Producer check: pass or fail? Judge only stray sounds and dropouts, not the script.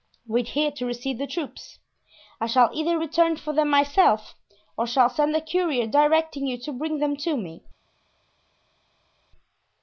pass